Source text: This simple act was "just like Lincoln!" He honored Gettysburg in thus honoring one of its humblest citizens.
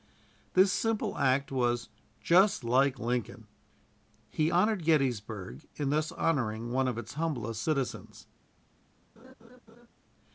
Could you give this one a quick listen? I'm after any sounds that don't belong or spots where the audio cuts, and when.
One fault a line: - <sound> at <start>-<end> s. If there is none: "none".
- laugh at 9.2-9.9 s